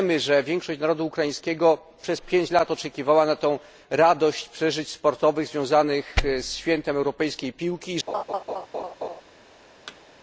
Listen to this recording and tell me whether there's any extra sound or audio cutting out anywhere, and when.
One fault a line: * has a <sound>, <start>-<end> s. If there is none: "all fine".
* has a laugh, 8.1-9.2 s
* has a thud, 9.9-10.0 s